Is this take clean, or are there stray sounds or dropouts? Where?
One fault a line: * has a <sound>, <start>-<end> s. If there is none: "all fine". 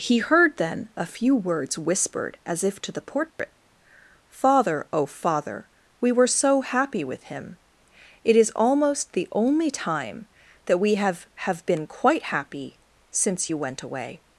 * has a dropout, 3.3-3.4 s